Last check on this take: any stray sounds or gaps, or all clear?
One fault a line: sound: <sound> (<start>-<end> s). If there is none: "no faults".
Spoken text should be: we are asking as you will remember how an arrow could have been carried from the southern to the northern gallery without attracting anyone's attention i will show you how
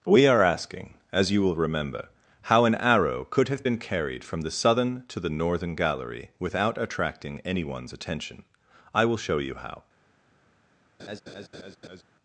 sound: laugh (11.0-12.0 s)